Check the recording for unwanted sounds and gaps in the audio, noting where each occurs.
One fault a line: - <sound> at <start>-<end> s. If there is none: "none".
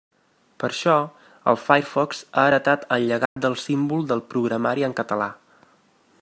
- dropout at 3.3-3.4 s